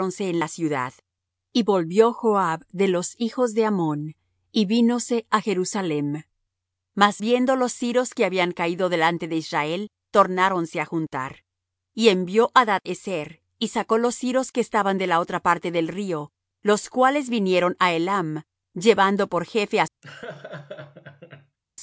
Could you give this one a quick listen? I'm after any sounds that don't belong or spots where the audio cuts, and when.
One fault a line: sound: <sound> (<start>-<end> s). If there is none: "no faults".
sound: laugh (20.0-21.6 s)